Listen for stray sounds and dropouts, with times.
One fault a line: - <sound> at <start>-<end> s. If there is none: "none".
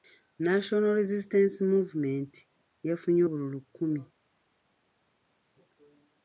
none